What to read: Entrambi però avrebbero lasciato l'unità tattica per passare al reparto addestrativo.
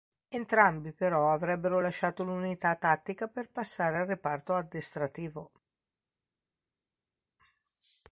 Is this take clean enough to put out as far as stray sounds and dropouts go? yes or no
yes